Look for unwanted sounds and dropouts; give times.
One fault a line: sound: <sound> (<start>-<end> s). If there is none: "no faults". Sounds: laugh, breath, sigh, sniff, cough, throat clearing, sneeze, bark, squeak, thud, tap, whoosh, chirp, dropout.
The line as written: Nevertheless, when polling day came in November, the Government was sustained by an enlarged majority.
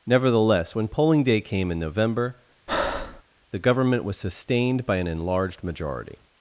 sound: breath (2.7-3.2 s)